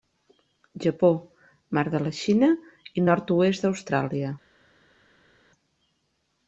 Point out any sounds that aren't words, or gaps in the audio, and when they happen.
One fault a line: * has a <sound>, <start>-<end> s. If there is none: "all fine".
all fine